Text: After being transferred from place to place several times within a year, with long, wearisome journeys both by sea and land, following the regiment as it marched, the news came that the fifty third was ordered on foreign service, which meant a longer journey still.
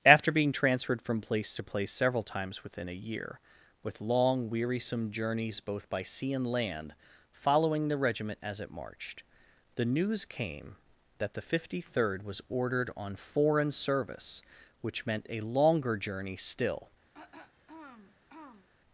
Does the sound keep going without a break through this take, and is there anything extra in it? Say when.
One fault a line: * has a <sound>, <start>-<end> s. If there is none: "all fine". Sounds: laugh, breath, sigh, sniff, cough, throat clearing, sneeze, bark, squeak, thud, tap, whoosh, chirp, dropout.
* has a throat clearing, 17.1-18.7 s